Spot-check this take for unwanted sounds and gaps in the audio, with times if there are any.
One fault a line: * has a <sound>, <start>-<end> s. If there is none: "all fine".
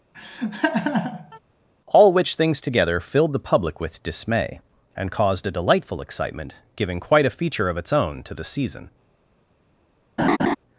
* has a laugh, 0.1-1.4 s
* has a laugh, 10.2-10.6 s